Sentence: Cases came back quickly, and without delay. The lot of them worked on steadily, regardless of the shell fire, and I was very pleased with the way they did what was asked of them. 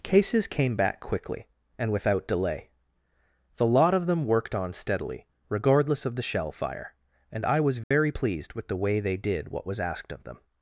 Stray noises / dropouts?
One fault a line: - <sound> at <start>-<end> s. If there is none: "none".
- dropout at 7.8-7.9 s